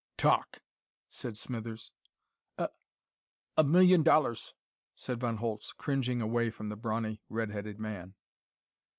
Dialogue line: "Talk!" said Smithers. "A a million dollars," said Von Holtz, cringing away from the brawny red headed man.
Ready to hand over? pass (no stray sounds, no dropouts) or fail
pass